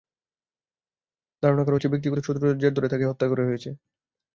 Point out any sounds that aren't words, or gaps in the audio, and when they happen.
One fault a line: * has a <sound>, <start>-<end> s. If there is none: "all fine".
all fine